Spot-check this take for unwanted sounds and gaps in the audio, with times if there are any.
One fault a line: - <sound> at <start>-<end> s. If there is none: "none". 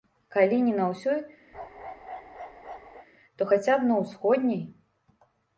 - bark at 1.5-3.1 s